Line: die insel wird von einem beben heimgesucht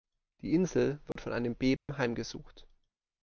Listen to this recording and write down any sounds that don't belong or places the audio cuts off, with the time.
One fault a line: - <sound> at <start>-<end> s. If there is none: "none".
- dropout at 1.1-1.2 s
- dropout at 1.8-1.9 s